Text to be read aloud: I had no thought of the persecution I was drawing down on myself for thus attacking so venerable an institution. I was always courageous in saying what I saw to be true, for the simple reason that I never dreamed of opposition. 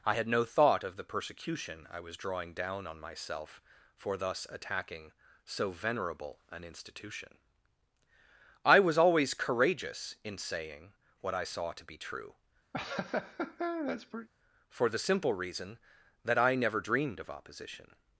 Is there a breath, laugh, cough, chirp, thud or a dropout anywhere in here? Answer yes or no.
yes